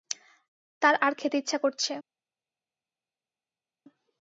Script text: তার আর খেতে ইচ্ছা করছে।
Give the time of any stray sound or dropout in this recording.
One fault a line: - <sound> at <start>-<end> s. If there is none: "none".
none